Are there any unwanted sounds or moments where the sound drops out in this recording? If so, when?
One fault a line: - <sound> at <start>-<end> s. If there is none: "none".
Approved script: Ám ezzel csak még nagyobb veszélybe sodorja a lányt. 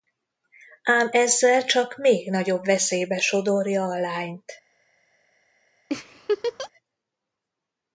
- laugh at 5.9-6.7 s